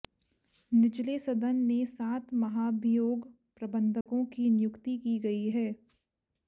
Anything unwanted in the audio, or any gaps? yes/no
yes